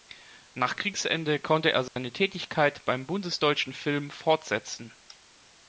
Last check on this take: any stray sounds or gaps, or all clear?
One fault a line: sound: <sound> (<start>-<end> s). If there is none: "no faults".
sound: dropout (1.9-2.0 s)